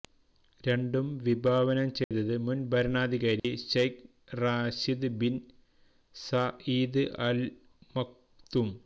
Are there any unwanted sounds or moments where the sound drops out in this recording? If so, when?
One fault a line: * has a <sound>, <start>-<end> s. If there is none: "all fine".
* has a dropout, 2.0-2.1 s
* has a dropout, 3.4-3.4 s